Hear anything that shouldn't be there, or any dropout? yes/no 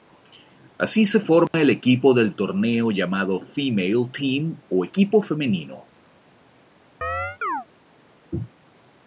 yes